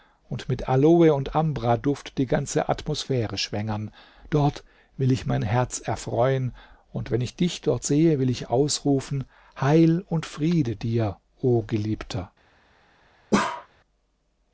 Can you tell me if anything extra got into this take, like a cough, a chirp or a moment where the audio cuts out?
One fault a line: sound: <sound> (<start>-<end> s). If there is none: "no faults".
sound: bark (13.3-13.7 s)